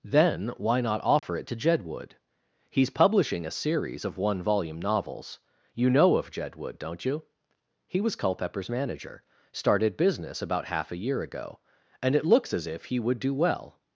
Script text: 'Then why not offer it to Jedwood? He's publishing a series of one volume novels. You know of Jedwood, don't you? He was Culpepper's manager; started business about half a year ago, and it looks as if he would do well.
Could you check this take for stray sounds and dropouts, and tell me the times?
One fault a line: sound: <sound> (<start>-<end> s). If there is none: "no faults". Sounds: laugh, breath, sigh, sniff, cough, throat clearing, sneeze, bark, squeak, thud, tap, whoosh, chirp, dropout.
sound: dropout (1.2-1.2 s)